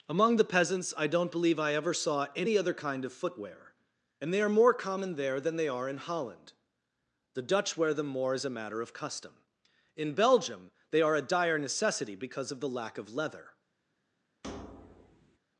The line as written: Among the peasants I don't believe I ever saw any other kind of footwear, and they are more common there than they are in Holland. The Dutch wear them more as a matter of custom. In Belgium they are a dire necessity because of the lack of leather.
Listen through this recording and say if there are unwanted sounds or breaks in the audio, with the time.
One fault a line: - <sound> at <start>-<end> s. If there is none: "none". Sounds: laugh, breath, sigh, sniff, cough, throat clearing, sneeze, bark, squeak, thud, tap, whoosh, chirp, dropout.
- thud at 14.4-15.4 s